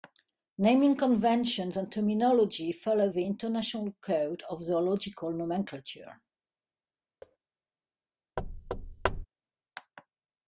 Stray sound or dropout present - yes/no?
yes